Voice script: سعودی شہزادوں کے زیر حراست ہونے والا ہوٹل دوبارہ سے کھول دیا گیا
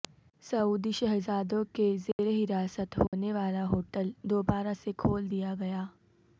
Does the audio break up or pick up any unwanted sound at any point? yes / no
yes